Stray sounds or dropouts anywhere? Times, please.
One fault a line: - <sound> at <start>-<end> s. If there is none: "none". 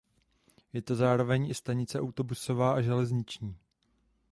none